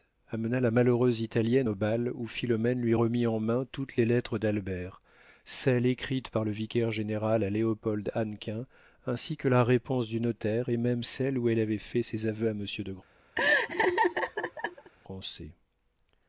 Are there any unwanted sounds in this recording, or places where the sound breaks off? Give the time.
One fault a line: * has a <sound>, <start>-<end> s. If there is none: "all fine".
* has a laugh, 13.3-14.9 s